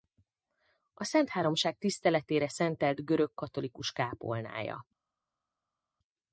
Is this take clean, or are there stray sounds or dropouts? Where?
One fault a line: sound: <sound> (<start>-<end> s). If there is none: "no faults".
no faults